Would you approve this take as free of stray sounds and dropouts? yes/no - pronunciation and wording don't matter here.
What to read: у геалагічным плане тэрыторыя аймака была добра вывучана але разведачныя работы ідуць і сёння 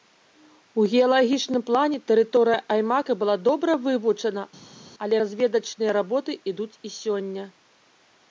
yes